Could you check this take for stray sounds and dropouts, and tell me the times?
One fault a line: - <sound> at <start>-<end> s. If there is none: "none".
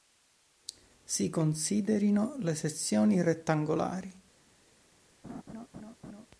- laugh at 5.2-6.3 s